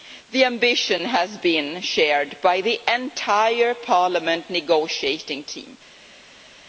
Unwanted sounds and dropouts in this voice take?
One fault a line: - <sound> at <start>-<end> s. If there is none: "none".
none